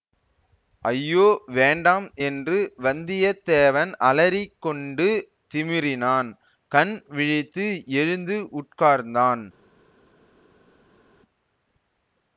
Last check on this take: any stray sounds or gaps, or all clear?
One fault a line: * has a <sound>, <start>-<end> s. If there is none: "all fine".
all fine